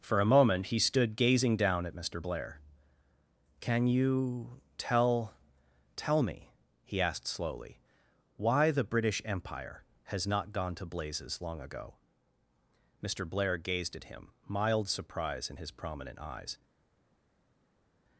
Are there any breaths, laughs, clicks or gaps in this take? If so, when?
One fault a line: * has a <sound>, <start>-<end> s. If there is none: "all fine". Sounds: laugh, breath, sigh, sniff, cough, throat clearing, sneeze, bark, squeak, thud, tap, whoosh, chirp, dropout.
all fine